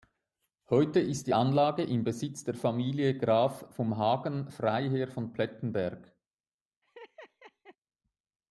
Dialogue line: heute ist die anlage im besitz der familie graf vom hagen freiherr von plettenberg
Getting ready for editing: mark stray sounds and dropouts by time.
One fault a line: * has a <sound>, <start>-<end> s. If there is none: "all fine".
* has a laugh, 6.8-7.8 s